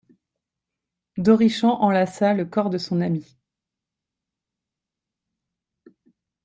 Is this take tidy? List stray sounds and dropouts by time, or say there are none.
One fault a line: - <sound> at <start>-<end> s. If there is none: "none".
none